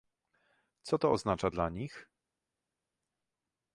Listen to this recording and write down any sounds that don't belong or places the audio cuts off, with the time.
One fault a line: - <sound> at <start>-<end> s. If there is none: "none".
none